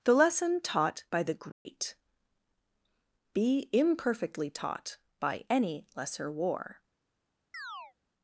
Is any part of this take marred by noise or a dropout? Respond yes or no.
yes